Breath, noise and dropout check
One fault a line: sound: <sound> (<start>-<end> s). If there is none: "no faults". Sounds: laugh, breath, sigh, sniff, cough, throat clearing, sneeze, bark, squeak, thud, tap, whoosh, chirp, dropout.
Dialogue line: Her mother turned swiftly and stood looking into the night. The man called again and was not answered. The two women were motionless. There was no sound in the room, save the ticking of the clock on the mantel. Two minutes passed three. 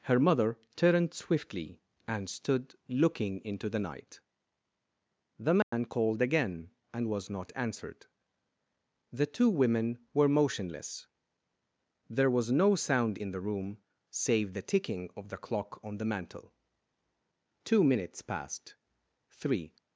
sound: dropout (5.6-5.7 s)